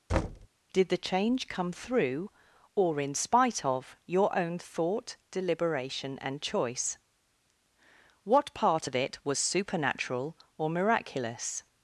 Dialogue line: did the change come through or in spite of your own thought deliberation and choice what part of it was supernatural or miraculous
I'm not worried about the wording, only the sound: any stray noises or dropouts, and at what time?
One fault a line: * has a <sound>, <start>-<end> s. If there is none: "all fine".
* has a thud, 0.1-0.5 s